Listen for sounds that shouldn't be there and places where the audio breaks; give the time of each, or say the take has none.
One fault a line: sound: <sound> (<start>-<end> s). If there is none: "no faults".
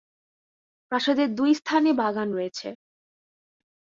no faults